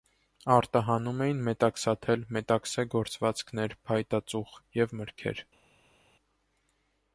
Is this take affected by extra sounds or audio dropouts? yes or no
no